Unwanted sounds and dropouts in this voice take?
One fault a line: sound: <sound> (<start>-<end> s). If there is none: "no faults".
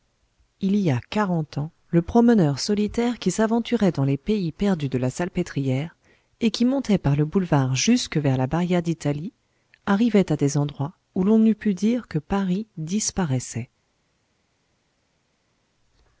no faults